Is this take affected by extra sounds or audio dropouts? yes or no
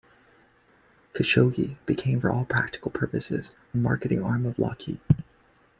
no